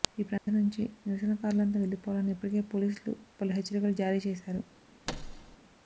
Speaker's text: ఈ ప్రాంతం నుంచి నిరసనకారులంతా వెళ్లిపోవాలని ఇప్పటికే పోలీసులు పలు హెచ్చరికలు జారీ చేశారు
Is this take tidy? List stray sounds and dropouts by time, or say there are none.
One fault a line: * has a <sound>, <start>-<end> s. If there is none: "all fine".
* has a dropout, 0.4-0.5 s
* has a thud, 5.1-5.6 s